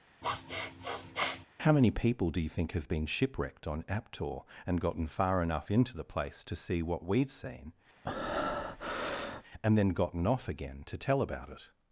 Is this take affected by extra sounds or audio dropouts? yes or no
yes